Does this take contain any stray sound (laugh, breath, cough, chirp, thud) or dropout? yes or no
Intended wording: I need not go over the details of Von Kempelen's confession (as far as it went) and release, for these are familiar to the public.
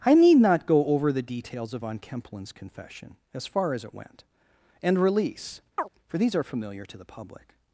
yes